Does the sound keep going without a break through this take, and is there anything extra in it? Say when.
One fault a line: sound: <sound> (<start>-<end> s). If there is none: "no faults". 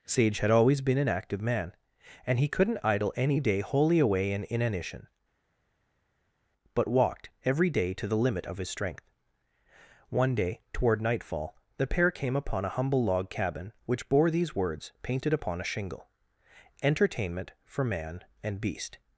no faults